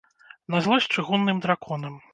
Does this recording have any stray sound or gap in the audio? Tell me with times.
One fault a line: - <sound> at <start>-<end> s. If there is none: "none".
none